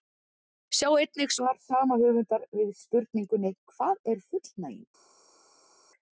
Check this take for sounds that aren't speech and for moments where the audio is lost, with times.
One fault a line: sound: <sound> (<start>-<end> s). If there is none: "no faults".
no faults